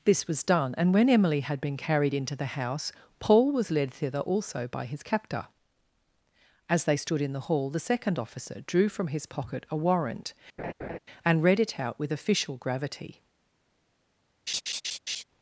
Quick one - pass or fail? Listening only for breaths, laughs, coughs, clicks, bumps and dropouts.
fail